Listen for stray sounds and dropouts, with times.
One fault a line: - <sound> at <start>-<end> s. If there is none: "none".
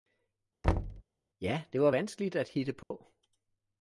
- thud at 0.6-1.0 s
- dropout at 2.8-2.9 s